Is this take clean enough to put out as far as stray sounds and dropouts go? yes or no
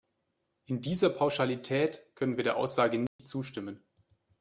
no